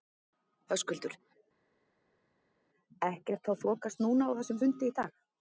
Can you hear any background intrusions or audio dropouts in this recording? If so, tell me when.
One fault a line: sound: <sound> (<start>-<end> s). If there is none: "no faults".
no faults